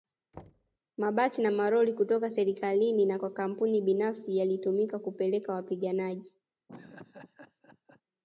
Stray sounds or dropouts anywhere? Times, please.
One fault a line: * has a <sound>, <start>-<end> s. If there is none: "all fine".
* has a thud, 0.3-0.8 s
* has a laugh, 6.7-8.0 s